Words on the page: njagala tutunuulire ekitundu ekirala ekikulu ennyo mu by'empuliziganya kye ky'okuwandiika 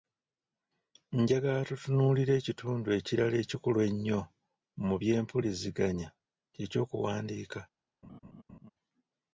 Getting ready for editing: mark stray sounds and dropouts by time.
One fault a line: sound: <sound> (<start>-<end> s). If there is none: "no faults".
sound: laugh (8.0-8.7 s)